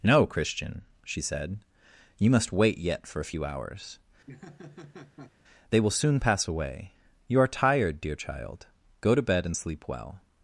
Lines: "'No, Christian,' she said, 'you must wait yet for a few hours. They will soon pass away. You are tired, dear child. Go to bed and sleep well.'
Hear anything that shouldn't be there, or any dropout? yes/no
yes